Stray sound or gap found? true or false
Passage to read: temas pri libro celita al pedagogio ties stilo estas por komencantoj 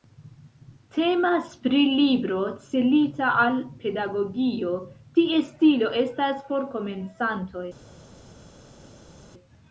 false